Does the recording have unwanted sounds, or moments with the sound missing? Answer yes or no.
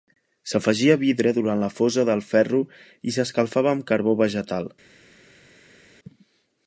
no